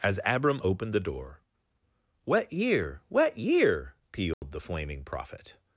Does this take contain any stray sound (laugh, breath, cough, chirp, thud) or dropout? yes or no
yes